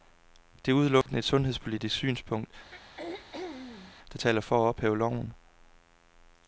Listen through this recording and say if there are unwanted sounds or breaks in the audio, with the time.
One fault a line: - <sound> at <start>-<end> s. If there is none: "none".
- dropout at 1.0-1.1 s
- throat clearing at 2.7-3.9 s